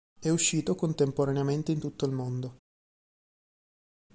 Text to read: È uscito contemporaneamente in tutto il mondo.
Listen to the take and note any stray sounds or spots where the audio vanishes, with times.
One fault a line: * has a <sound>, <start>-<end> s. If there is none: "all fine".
all fine